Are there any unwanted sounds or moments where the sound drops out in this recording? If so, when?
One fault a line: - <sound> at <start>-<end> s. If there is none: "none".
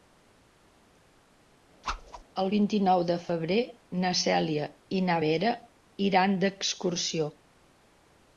- whoosh at 1.8-2.2 s